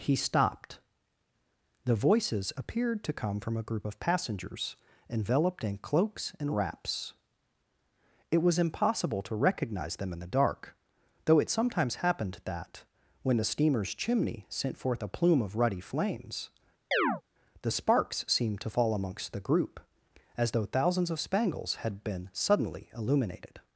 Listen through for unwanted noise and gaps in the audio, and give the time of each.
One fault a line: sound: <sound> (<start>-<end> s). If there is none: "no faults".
sound: chirp (16.9-17.2 s)